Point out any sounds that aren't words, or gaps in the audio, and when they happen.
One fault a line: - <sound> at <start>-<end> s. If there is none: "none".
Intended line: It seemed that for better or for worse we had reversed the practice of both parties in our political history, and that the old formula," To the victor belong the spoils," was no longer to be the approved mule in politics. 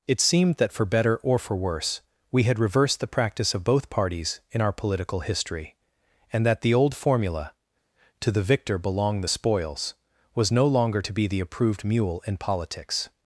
none